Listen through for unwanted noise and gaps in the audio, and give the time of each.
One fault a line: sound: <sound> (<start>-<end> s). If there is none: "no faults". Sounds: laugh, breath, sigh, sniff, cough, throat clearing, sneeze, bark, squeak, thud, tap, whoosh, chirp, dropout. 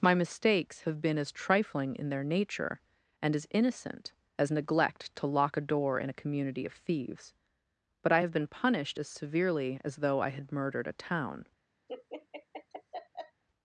sound: laugh (11.9-13.4 s)